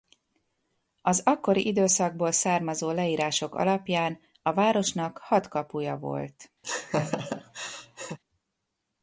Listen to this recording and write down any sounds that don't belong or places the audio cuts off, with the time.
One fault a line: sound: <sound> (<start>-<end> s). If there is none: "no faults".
sound: laugh (6.6-8.2 s)